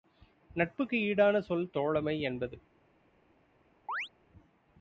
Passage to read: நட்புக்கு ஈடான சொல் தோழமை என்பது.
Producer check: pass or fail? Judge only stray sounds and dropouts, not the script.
fail